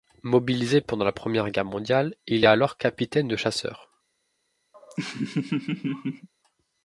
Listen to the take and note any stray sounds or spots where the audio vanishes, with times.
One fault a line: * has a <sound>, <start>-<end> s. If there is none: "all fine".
* has a laugh, 4.7-6.3 s